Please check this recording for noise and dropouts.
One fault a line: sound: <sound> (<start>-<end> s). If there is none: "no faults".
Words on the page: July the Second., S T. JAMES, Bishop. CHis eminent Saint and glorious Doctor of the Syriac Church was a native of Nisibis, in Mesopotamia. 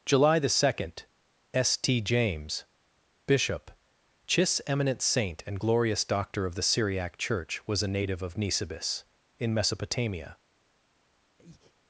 sound: breath (11.4-11.7 s)